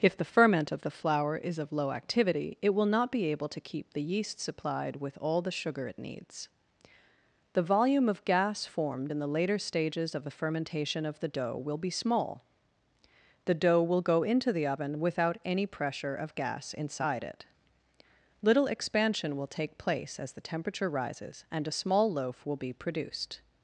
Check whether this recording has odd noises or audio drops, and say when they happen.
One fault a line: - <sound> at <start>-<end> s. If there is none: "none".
none